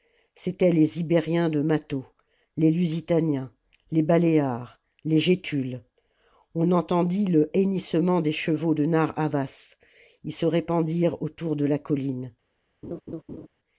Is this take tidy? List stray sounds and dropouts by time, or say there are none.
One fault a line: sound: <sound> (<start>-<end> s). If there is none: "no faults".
sound: laugh (12.8-13.5 s)